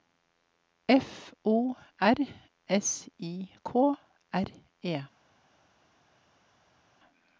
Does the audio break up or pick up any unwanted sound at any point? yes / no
no